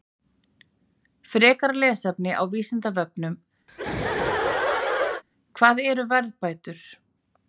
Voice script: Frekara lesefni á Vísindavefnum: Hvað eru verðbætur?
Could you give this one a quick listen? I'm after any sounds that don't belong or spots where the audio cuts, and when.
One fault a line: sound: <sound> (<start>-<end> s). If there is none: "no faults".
sound: laugh (3.7-5.2 s)